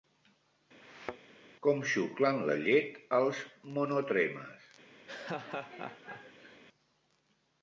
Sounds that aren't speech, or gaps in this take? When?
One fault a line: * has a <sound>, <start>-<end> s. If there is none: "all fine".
* has a thud, 0.8-1.3 s
* has a laugh, 5.1-6.6 s